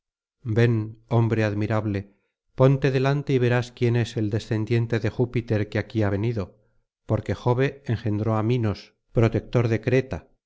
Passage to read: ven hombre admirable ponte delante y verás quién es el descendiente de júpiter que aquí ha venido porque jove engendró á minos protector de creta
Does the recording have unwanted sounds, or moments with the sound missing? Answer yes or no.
no